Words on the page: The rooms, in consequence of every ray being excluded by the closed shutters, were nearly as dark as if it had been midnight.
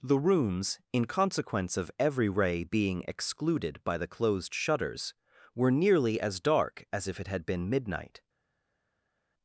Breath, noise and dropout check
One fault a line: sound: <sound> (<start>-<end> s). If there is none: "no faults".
no faults